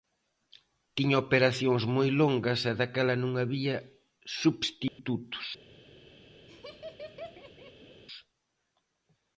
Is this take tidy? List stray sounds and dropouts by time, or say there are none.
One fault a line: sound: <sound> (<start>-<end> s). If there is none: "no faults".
sound: dropout (4.9-5.0 s)
sound: laugh (6.5-8.0 s)